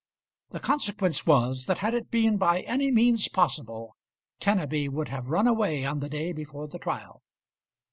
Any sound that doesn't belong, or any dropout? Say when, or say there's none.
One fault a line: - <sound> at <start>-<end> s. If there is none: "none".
none